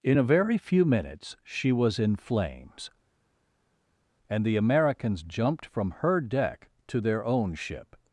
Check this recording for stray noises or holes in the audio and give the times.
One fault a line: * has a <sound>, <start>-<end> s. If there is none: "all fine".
all fine